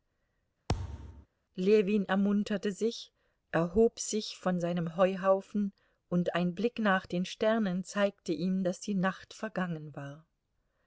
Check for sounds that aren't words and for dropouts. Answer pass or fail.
fail